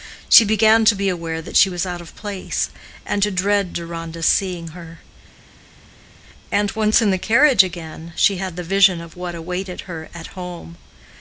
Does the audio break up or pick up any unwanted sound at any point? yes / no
no